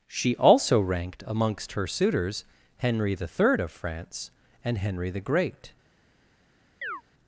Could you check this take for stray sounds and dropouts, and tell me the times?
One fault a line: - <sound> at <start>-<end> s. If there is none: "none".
- chirp at 6.8-7.0 s